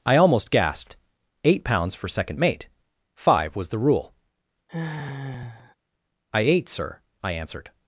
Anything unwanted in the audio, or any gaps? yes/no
yes